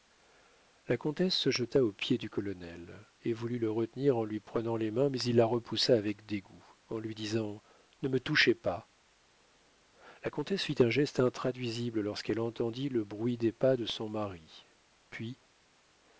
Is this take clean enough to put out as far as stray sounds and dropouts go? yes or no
yes